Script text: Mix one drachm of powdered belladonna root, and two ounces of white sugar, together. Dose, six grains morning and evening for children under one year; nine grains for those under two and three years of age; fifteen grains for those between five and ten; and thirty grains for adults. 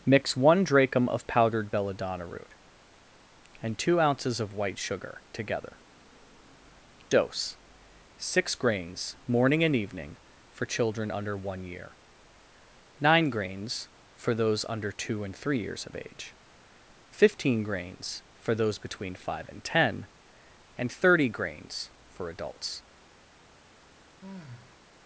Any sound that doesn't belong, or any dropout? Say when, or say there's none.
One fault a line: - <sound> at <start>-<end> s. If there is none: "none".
- sigh at 24.2-24.8 s